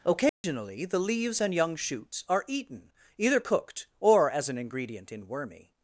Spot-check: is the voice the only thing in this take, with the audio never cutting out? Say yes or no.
no